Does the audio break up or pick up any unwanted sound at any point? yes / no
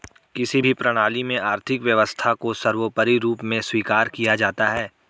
no